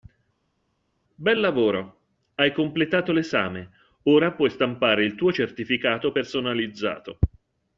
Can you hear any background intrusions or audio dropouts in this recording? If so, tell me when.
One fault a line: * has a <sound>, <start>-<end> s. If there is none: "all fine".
all fine